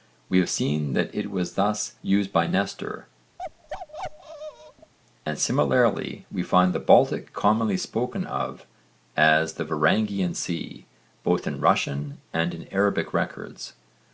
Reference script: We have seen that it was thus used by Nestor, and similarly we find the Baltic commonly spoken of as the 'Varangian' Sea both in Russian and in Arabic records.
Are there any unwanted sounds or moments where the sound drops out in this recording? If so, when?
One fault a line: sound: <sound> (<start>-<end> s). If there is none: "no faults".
sound: bark (3.4-4.9 s)